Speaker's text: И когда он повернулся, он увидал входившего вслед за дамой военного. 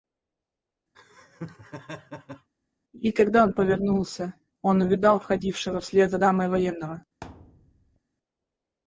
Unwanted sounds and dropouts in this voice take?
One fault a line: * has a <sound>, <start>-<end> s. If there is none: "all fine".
* has a laugh, 0.9-2.5 s
* has a thud, 7.2-8.0 s